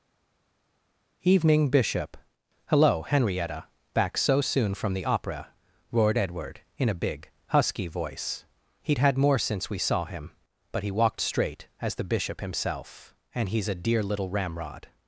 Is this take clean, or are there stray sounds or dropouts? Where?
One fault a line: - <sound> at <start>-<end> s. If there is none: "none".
none